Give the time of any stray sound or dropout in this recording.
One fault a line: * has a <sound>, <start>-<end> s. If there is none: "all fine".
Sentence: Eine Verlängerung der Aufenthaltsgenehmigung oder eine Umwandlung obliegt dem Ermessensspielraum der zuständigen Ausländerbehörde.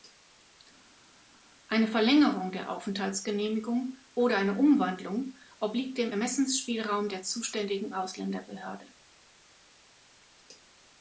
all fine